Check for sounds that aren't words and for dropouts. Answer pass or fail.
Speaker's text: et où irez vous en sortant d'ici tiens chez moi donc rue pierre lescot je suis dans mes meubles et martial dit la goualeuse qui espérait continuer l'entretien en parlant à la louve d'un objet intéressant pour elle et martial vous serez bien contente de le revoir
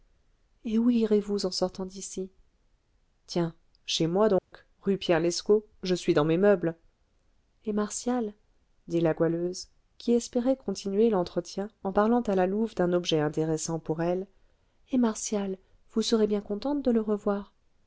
fail